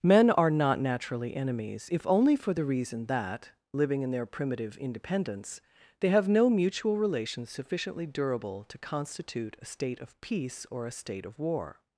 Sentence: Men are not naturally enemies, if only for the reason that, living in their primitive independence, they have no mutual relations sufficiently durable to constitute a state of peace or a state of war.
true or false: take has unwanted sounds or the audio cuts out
false